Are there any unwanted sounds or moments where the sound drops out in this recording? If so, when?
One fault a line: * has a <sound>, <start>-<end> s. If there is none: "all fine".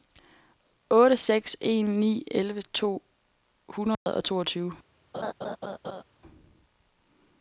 * has a dropout, 3.9-4.1 s
* has a laugh, 5.1-6.0 s